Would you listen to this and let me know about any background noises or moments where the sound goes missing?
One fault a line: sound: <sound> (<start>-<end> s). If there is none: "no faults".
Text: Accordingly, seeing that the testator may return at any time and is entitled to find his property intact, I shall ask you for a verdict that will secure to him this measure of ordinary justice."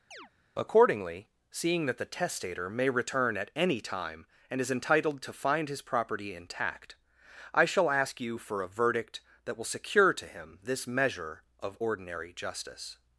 sound: chirp (0.1-0.3 s)